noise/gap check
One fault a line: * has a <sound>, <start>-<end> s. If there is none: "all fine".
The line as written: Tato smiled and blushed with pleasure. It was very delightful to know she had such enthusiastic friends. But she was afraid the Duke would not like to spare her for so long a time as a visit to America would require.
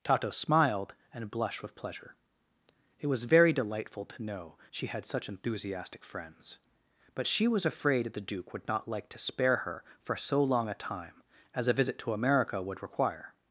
all fine